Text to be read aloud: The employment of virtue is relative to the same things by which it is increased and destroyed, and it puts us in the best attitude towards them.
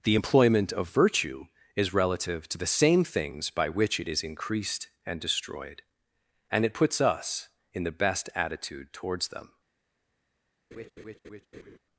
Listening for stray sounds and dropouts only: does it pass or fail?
fail